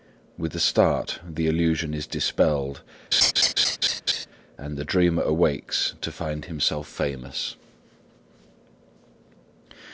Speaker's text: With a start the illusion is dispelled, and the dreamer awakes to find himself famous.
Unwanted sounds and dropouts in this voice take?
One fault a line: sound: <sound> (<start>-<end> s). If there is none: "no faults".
sound: laugh (3.1-4.3 s)